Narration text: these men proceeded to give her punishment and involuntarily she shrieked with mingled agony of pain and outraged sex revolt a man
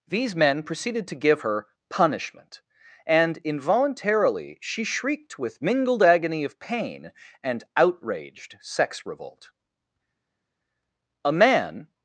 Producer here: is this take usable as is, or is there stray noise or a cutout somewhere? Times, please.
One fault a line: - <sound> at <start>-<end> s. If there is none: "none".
none